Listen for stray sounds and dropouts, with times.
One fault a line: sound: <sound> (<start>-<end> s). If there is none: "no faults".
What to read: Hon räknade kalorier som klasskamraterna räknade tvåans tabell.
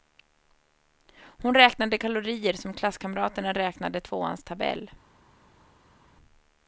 no faults